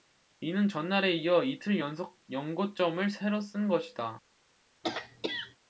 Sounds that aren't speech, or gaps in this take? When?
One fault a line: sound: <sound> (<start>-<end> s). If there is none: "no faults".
sound: throat clearing (4.8-5.6 s)